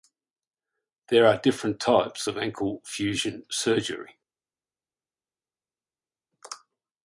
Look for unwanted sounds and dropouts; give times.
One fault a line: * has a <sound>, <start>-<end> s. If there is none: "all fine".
all fine